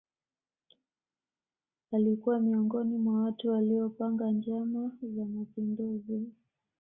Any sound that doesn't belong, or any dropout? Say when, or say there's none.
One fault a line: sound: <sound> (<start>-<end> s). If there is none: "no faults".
no faults